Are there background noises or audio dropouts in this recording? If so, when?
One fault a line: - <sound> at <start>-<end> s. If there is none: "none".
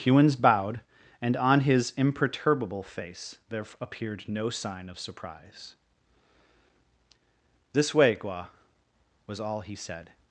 none